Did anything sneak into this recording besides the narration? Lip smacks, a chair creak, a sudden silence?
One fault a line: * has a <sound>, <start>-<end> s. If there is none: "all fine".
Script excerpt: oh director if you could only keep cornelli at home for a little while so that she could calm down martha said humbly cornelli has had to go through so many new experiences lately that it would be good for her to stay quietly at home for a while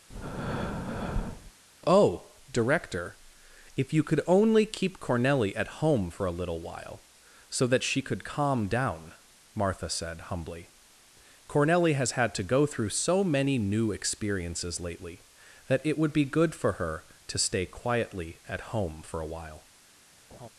* has a breath, 0.1-1.5 s
* has a laugh, 20.3-20.5 s